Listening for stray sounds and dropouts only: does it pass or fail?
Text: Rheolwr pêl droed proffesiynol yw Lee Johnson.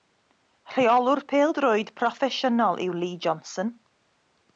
pass